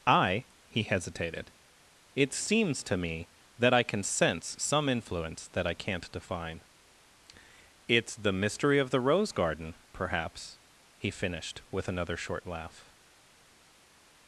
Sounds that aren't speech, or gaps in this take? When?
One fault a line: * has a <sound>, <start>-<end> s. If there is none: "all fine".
all fine